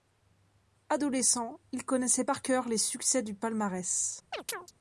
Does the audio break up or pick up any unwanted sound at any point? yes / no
yes